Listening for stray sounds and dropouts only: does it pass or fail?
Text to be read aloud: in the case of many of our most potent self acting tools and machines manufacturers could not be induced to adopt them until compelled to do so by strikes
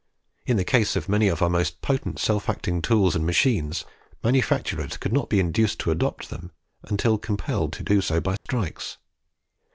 fail